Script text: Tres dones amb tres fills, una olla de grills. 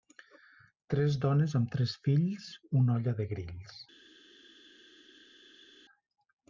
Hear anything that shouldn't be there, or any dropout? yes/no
no